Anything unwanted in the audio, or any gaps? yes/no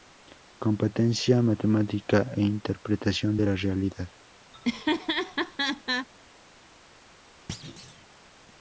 yes